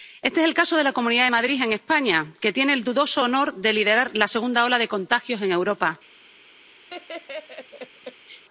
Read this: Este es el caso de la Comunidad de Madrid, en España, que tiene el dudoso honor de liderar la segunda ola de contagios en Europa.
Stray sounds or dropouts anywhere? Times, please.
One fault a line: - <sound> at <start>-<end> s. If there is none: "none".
- laugh at 6.9-8.4 s